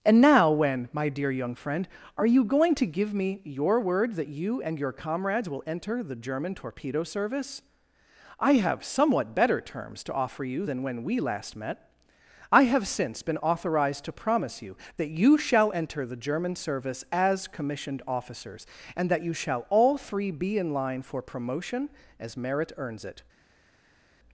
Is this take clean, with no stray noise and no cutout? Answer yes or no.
yes